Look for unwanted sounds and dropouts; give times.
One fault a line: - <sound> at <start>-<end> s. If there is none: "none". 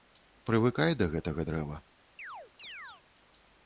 - chirp at 2.2-3.0 s